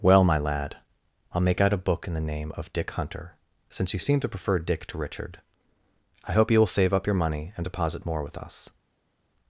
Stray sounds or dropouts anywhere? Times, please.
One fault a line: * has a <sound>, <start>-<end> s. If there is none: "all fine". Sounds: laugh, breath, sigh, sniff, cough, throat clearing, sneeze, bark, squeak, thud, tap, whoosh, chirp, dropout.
all fine